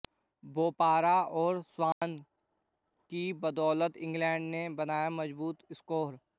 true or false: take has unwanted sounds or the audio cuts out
true